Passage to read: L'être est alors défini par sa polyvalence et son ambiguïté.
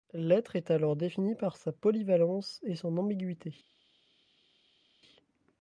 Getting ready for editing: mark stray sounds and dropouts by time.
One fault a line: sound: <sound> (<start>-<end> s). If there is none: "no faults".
no faults